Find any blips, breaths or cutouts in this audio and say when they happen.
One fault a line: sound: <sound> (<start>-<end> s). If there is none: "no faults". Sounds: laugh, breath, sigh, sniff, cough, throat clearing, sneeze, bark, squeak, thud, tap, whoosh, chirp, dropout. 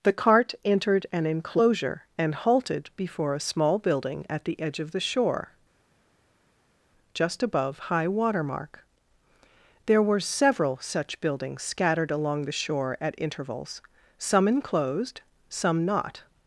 no faults